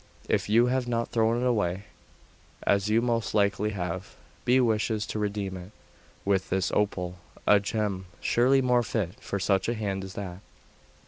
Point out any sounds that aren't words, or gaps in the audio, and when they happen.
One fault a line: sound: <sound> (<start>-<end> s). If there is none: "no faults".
no faults